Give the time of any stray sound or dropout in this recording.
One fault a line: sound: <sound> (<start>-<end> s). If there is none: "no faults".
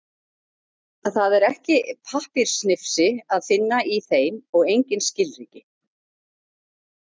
no faults